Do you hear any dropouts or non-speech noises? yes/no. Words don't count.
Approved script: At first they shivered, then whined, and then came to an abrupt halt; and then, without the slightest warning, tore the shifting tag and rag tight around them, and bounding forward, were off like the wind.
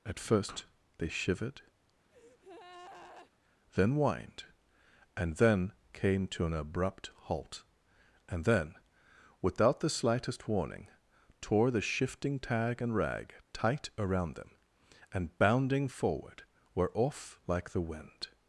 yes